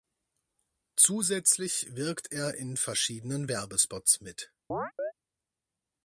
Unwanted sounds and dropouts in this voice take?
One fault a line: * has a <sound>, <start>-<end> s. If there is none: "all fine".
* has a chirp, 4.7-5.1 s